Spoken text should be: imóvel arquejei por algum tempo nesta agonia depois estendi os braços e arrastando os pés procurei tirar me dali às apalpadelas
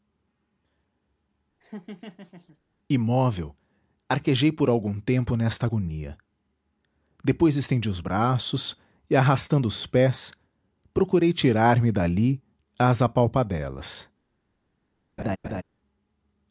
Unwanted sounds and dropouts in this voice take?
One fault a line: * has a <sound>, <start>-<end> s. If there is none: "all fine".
* has a laugh, 1.6-2.6 s
* has a laugh, 15.2-15.6 s